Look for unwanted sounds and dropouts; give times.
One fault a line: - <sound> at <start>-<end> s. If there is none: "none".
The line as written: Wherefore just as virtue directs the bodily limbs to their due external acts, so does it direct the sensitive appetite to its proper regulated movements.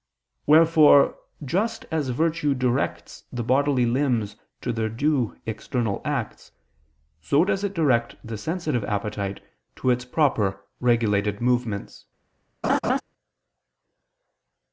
- laugh at 12.6-13.0 s